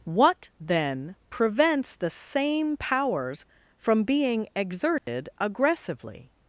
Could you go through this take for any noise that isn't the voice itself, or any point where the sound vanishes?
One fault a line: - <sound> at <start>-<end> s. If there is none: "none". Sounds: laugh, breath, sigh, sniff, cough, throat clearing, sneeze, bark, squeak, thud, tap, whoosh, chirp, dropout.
- dropout at 5.0-5.1 s